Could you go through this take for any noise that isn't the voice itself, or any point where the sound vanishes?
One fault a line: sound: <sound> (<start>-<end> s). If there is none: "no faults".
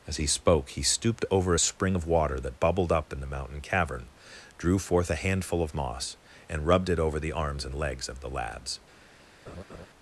sound: laugh (9.5-9.9 s)